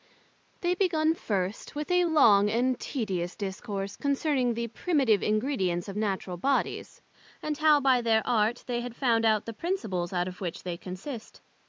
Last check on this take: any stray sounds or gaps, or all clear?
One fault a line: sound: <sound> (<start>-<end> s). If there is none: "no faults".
no faults